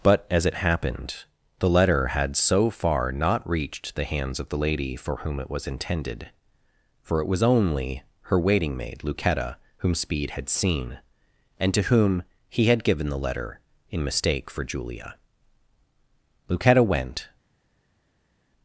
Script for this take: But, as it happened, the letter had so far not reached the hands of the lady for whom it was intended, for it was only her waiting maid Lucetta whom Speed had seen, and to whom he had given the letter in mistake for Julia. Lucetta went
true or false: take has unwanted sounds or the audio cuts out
false